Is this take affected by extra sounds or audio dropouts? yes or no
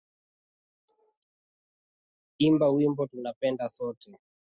no